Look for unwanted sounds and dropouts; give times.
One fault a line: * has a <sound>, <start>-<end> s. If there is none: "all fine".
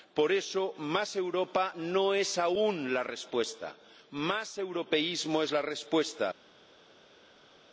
all fine